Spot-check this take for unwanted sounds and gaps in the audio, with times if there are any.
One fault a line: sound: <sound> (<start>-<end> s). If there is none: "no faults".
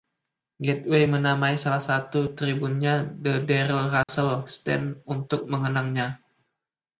sound: dropout (4.0-4.1 s)